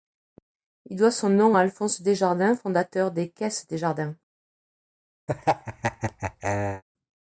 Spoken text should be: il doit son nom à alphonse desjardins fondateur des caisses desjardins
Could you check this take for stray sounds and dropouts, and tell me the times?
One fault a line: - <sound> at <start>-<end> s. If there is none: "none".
- laugh at 5.3-6.8 s